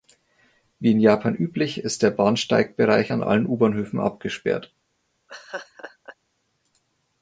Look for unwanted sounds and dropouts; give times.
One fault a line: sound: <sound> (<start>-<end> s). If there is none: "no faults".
sound: laugh (5.3-6.2 s)